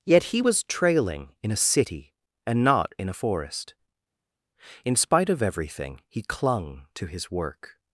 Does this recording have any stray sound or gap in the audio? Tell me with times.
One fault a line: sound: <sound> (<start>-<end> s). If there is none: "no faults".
no faults